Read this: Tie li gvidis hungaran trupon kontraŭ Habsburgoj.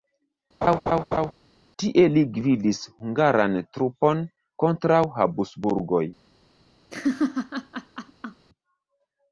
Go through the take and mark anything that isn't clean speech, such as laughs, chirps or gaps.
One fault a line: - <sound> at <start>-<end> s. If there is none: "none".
- laugh at 0.6-1.3 s
- laugh at 6.9-8.4 s